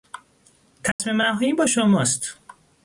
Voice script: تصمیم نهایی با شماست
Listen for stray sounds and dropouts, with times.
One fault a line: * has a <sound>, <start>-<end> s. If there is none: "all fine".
* has a dropout, 0.9-1.0 s